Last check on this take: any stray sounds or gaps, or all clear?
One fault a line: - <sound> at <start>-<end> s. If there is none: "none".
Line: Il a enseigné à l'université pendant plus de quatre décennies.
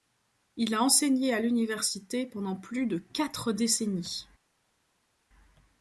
none